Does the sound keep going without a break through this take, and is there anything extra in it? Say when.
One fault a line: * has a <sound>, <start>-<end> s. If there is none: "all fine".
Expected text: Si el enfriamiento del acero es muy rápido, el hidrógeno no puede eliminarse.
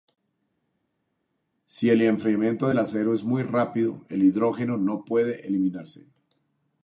all fine